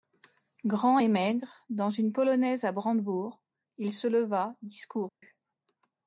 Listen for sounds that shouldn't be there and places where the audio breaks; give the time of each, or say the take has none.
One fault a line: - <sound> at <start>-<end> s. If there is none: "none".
- dropout at 5.1-5.2 s